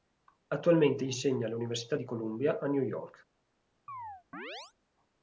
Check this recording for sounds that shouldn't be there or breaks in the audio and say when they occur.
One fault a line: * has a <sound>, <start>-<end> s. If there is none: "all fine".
* has a chirp, 3.9-4.7 s